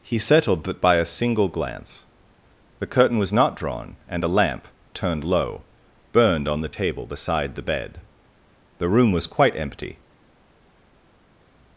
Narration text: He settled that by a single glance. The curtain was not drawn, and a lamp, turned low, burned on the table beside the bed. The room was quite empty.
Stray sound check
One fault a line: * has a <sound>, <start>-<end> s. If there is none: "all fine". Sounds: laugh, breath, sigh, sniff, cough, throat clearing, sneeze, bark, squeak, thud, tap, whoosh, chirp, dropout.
all fine